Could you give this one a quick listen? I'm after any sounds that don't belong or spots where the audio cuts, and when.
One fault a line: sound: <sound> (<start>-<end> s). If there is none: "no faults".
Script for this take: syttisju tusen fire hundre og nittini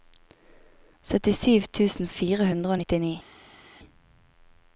no faults